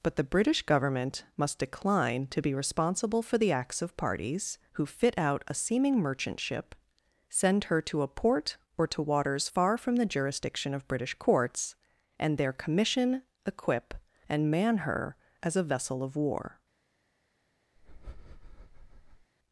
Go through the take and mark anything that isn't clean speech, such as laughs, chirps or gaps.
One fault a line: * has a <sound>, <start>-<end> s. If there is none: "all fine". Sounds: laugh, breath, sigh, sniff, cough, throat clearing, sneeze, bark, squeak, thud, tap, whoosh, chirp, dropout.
* has a breath, 17.8-19.3 s